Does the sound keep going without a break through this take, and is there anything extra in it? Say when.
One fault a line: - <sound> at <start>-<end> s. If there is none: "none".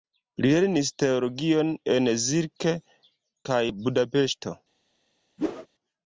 - whoosh at 5.4-5.7 s